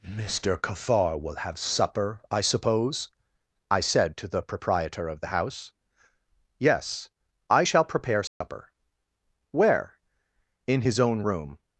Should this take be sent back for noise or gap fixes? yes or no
yes